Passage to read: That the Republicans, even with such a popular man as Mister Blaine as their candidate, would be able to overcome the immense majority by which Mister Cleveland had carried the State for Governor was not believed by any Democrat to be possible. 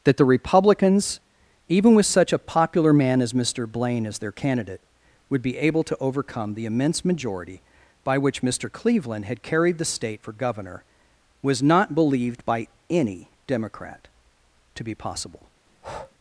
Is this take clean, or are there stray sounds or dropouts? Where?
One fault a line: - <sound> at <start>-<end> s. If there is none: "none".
- breath at 15.7-16.2 s